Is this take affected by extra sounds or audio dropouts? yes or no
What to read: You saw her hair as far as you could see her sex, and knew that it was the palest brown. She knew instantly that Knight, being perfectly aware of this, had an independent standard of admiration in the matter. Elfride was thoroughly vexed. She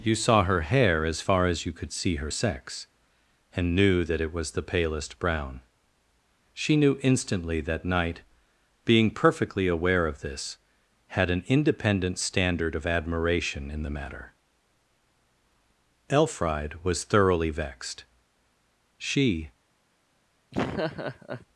yes